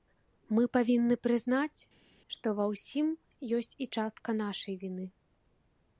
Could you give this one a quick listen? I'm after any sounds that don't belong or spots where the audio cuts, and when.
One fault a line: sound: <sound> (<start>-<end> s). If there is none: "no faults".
no faults